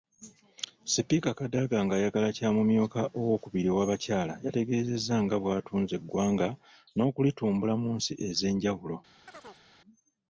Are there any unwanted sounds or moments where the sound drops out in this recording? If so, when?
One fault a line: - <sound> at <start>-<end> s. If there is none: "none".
- chirp at 9.3-9.7 s